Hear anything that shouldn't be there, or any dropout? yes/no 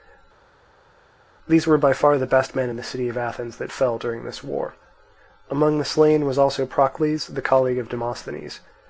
no